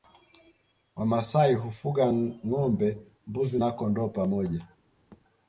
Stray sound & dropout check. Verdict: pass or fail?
fail